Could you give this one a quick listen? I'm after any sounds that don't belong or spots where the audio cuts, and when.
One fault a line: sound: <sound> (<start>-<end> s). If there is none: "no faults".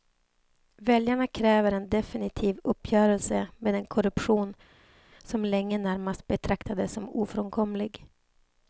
no faults